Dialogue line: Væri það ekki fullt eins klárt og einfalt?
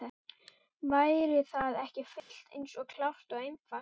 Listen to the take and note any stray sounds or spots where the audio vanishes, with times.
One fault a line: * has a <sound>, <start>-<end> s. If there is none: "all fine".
* has a dropout, 2.2-2.3 s